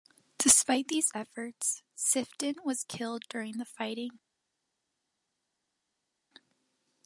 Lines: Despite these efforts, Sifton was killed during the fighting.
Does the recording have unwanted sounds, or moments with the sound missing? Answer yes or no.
no